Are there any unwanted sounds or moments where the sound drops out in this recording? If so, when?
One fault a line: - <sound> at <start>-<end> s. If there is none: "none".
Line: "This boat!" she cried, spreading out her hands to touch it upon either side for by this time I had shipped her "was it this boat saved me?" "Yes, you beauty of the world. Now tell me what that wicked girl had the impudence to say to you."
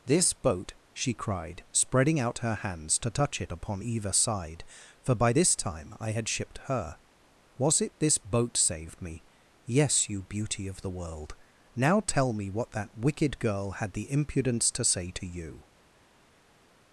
none